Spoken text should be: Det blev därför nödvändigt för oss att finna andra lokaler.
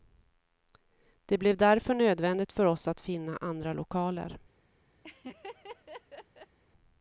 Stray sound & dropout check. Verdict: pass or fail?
fail